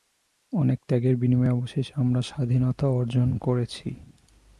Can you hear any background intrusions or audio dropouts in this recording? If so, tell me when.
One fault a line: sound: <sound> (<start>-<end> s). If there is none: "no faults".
no faults